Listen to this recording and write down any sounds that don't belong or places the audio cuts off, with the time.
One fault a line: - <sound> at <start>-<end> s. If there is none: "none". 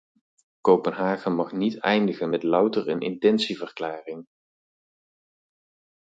none